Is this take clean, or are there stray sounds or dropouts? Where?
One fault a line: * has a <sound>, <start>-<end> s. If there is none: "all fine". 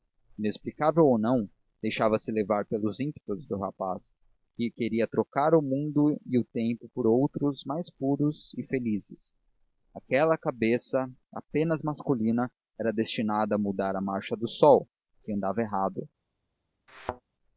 * has a thud, 16.9-17.2 s